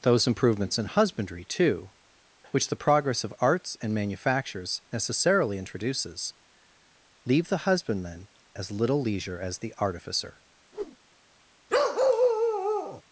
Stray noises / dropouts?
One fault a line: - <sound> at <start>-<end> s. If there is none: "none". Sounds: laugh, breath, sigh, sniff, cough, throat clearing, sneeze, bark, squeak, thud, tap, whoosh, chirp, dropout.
- whoosh at 10.7-11.0 s
- bark at 11.7-13.0 s